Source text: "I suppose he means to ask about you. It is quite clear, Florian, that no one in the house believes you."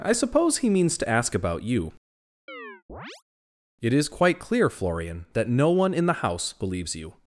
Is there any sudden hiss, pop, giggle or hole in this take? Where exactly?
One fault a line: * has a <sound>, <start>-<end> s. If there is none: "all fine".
* has a chirp, 2.5-3.2 s